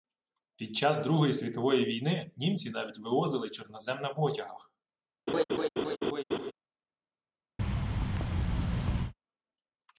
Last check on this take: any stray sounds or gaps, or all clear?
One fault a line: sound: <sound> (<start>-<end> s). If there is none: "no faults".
sound: laugh (5.3-6.5 s)
sound: thud (7.6-9.1 s)